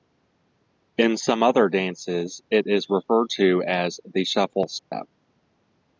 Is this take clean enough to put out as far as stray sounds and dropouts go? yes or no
no